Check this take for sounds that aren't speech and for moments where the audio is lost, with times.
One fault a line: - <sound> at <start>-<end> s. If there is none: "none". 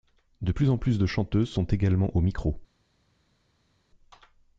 none